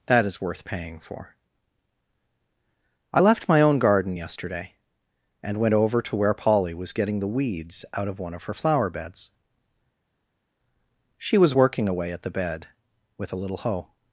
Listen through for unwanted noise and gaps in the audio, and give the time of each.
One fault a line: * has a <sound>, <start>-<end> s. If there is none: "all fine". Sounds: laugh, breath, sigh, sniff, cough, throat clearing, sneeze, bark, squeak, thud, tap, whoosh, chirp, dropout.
all fine